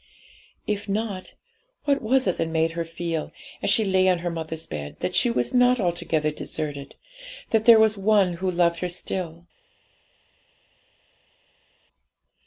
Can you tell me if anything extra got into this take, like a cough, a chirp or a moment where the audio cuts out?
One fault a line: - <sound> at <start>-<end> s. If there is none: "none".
none